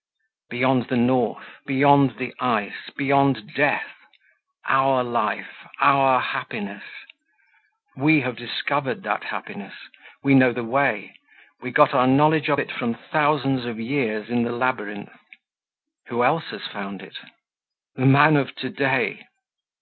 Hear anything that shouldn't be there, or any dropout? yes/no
no